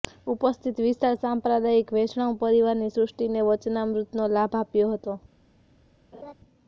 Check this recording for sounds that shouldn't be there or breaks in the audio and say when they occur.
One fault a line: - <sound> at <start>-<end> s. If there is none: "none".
- laugh at 6.1-6.3 s